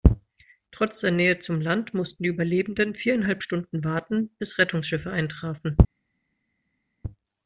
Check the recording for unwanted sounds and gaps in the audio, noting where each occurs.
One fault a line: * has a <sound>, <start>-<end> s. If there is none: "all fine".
all fine